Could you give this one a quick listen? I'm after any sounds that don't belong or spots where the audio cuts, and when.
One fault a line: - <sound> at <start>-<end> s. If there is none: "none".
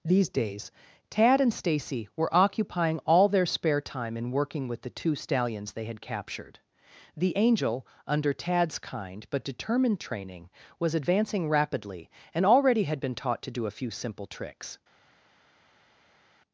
none